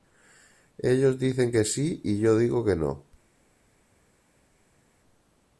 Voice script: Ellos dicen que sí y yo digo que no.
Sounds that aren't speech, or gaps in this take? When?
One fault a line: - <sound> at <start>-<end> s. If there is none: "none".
none